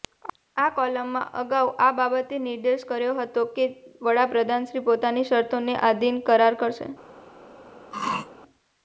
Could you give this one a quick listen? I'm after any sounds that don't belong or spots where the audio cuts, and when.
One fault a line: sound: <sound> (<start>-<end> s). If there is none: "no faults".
sound: throat clearing (7.9-8.3 s)